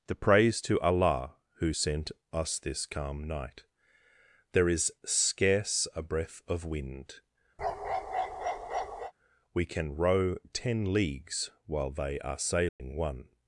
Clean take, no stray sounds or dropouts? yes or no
no